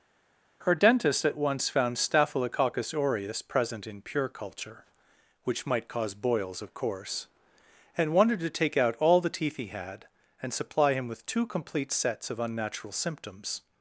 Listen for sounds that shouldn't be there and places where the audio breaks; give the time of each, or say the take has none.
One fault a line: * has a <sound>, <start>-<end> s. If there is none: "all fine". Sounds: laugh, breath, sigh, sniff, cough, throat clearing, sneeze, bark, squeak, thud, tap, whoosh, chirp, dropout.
all fine